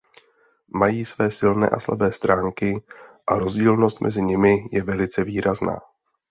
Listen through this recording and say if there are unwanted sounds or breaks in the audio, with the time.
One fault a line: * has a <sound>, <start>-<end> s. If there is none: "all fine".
all fine